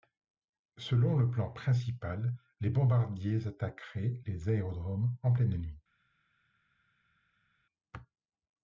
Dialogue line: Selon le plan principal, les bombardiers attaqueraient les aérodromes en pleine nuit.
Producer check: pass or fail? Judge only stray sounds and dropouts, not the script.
pass